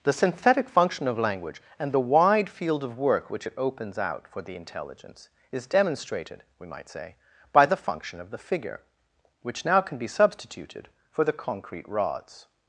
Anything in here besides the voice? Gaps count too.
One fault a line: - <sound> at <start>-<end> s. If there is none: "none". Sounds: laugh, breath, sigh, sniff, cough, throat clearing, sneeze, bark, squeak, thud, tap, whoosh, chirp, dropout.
none